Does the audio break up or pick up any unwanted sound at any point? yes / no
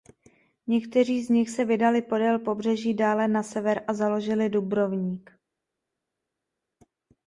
no